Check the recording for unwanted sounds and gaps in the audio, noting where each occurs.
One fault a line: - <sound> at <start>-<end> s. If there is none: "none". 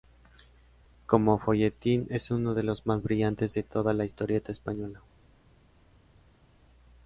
none